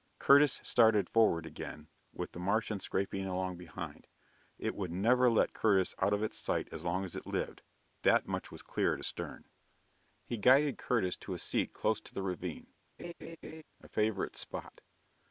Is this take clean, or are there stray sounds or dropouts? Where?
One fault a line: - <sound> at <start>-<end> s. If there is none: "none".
- laugh at 13.0-13.6 s